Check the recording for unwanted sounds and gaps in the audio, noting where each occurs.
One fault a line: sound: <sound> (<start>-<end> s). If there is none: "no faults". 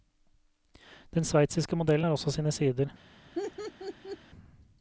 sound: laugh (3.4-4.2 s)